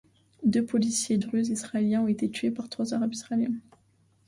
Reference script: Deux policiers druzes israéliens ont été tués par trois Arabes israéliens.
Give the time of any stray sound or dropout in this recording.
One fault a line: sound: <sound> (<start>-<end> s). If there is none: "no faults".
no faults